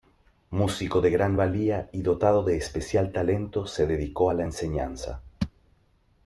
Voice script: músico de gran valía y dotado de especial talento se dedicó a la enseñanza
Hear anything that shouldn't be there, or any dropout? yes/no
no